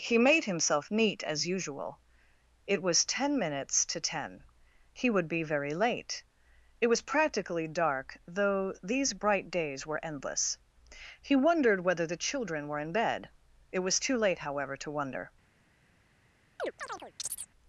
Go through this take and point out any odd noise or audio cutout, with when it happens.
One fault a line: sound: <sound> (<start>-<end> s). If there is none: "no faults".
sound: chirp (16.6-17.5 s)